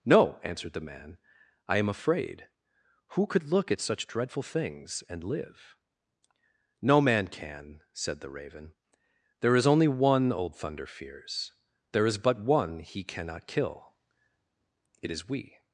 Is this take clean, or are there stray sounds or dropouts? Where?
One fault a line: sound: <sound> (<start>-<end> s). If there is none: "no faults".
no faults